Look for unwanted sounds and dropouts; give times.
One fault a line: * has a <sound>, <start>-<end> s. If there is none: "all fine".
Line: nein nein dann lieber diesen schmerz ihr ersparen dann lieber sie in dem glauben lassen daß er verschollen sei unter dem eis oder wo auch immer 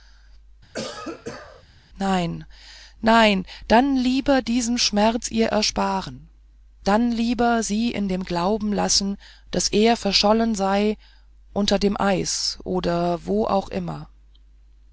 * has a cough, 0.7-1.6 s